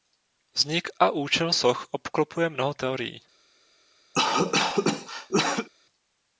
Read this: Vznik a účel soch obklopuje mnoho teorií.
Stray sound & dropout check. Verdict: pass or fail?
fail